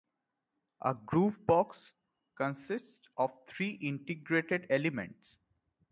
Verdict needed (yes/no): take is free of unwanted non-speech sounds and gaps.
yes